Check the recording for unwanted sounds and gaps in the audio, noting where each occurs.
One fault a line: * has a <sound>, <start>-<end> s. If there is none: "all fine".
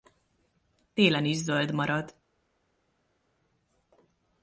all fine